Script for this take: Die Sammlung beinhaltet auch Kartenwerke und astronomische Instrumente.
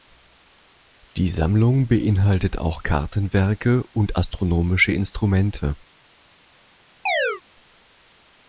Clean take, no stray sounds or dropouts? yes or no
no